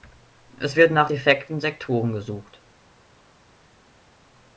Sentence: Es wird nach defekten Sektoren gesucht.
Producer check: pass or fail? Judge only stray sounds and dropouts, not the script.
pass